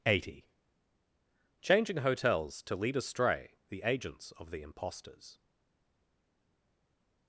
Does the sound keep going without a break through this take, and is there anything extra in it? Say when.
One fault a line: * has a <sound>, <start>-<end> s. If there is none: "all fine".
all fine